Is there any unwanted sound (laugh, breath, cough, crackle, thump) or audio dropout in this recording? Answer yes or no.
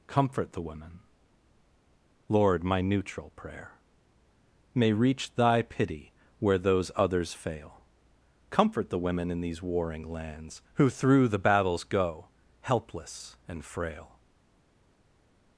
no